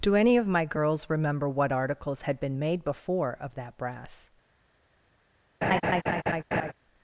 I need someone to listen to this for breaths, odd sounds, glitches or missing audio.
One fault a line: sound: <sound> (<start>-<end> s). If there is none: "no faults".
sound: laugh (5.6-6.7 s)